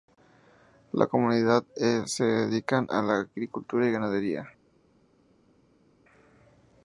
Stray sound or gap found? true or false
false